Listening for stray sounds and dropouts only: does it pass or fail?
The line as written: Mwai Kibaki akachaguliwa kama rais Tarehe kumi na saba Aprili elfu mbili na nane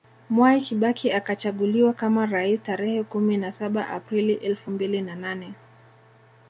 pass